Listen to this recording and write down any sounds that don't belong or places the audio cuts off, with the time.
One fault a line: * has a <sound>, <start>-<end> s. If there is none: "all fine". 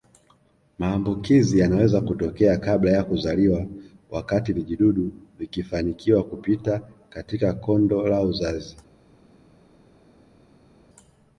all fine